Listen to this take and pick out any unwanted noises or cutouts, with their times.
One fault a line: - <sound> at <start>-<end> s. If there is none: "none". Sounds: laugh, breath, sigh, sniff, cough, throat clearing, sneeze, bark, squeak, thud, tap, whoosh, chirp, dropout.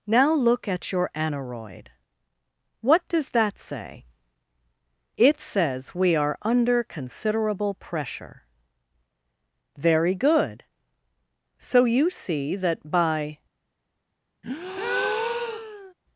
- breath at 14.4-15.9 s